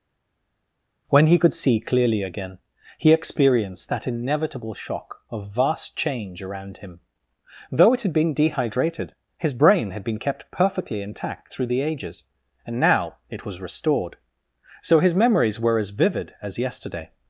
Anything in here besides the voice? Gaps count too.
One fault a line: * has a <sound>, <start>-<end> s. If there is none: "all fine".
all fine